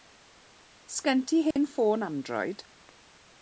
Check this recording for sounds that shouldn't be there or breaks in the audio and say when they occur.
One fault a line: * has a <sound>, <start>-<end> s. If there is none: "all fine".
* has a dropout, 1.5-1.6 s